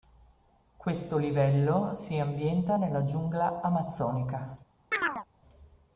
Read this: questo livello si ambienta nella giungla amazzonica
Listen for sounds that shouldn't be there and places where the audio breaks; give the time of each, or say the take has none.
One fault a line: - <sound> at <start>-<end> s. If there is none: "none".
- chirp at 4.9-5.3 s